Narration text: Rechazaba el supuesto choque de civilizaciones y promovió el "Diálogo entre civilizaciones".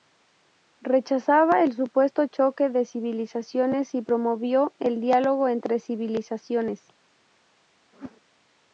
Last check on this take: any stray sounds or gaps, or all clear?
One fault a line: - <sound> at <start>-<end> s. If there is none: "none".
- whoosh at 7.9-8.2 s